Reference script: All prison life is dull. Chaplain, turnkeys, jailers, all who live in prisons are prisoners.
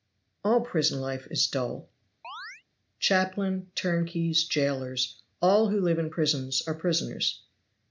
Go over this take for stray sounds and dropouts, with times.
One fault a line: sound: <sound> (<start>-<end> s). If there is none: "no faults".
sound: chirp (2.2-2.6 s)